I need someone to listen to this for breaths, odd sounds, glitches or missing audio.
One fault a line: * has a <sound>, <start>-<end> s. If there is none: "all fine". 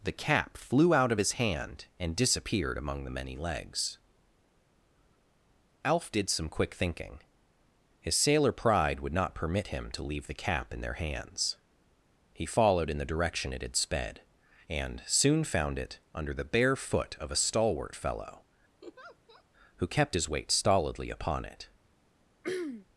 * has a laugh, 18.8-19.4 s
* has a throat clearing, 22.4-22.9 s